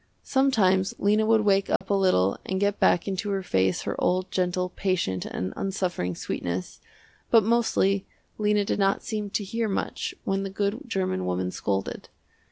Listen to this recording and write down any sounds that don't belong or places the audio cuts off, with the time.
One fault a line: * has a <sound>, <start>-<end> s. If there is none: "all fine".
* has a dropout, 1.8-1.8 s